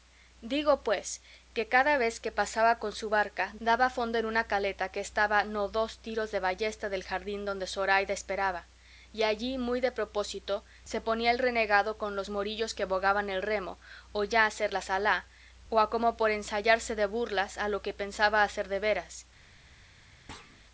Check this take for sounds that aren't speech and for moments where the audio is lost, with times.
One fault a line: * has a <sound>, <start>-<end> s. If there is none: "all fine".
* has a thud, 20.3-20.6 s